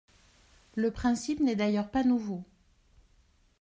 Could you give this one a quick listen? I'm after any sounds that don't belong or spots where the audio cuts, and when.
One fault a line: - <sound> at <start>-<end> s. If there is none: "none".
none